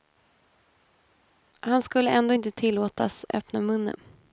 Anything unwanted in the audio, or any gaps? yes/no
no